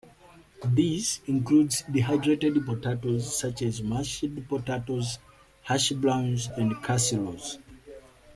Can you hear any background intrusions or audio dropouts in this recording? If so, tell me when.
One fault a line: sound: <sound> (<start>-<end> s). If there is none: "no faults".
no faults